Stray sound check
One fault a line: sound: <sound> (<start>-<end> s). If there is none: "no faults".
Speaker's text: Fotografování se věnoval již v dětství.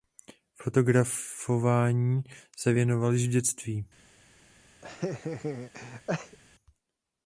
sound: laugh (4.8-6.4 s)